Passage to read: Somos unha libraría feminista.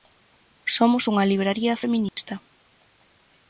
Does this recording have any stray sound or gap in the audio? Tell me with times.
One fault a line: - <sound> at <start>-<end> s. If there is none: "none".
- dropout at 2.1-2.2 s